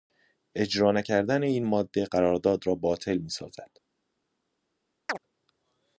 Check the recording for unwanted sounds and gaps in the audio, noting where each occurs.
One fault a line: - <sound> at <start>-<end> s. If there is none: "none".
- chirp at 5.1-5.2 s